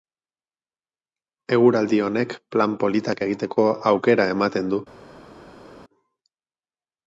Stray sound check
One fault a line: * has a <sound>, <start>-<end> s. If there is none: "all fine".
all fine